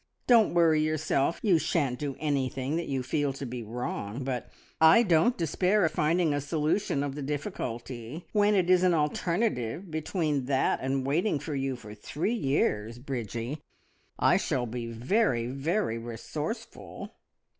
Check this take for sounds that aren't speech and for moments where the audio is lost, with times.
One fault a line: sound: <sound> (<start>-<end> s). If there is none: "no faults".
no faults